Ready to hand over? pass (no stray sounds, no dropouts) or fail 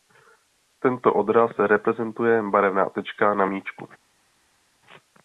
pass